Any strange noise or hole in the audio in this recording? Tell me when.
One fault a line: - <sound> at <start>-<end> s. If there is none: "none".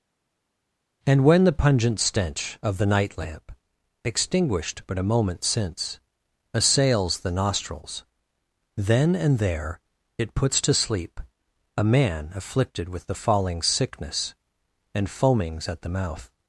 none